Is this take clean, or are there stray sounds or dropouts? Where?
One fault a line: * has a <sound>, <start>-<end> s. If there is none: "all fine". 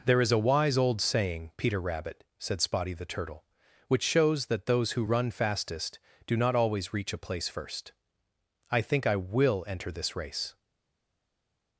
all fine